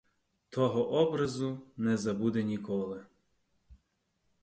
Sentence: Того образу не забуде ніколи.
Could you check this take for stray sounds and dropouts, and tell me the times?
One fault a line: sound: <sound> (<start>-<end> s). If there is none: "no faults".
no faults